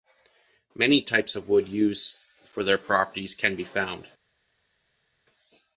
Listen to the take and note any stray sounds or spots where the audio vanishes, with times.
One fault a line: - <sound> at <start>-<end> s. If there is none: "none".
none